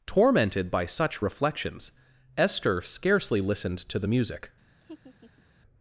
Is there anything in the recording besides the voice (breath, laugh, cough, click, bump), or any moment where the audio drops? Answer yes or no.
yes